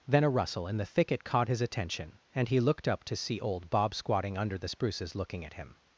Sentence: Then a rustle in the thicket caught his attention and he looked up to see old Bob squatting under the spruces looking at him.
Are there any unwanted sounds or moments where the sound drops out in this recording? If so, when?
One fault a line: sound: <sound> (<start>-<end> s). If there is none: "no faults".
no faults